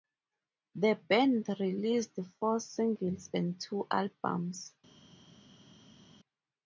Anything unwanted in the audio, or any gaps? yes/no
no